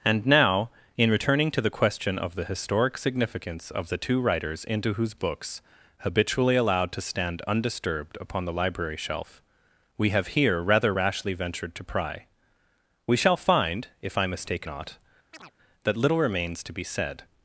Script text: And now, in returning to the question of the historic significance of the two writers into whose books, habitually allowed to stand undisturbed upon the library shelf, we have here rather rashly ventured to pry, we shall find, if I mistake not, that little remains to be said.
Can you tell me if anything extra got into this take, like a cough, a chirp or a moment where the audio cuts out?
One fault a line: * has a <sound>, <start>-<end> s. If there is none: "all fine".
* has a chirp, 15.3-15.5 s